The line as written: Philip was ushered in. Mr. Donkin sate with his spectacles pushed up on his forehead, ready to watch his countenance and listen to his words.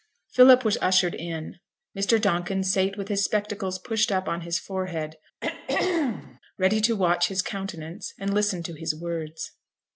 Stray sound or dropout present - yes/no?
yes